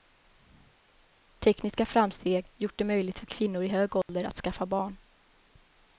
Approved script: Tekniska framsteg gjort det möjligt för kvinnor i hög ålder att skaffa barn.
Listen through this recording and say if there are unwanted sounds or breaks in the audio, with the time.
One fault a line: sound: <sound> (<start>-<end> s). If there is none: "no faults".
sound: dropout (4.0-4.1 s)